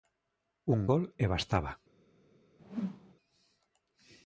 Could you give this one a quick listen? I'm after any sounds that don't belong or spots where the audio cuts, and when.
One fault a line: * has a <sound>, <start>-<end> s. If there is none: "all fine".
* has a whoosh, 2.6-3.2 s